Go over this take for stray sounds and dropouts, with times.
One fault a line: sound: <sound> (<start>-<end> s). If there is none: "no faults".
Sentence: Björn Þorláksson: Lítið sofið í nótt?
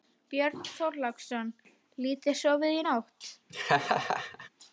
sound: laugh (3.5-4.5 s)